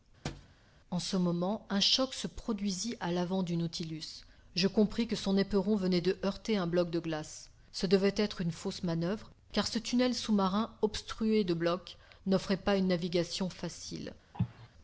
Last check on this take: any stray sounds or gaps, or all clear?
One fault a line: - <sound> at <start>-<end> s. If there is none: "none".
- thud at 0.2-0.6 s
- cough at 14.3-14.7 s